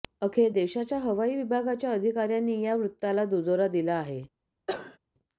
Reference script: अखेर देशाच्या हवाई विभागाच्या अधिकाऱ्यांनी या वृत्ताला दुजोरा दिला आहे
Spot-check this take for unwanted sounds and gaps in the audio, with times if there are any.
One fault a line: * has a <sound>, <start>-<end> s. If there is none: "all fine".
* has a cough, 4.7-5.0 s